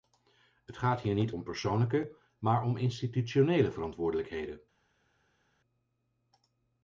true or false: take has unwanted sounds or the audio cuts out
false